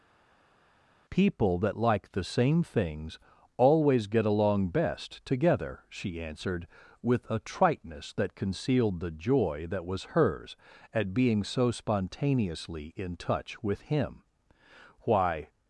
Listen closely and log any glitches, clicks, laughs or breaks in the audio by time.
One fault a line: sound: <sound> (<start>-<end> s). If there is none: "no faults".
no faults